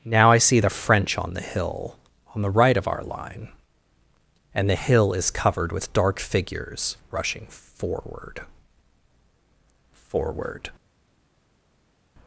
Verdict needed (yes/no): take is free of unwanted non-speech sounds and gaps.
yes